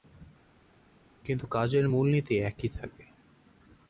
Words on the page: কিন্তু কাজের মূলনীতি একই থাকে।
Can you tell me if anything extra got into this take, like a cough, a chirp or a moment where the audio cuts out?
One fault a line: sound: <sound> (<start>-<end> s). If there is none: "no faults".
no faults